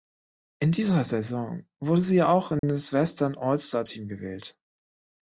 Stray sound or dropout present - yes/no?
yes